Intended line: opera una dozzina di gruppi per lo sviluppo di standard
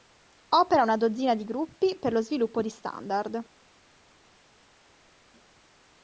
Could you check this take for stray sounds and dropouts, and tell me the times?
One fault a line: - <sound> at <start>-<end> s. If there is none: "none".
none